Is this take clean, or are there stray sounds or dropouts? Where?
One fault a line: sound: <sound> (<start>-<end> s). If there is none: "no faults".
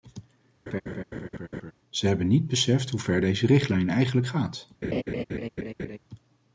sound: laugh (0.7-1.7 s)
sound: laugh (4.8-6.0 s)